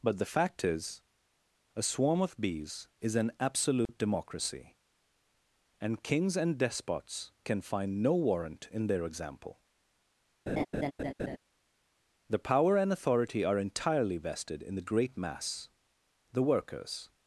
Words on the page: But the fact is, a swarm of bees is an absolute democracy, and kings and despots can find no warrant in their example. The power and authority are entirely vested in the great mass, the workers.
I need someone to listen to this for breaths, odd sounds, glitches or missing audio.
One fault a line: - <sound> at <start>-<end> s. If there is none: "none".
- dropout at 3.9-3.9 s
- laugh at 10.5-11.4 s